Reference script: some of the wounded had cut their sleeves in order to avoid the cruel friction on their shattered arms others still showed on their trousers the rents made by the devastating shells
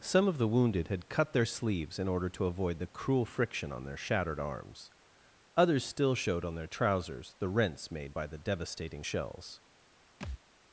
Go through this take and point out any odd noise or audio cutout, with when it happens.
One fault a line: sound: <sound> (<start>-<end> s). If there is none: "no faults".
sound: thud (10.2-10.4 s)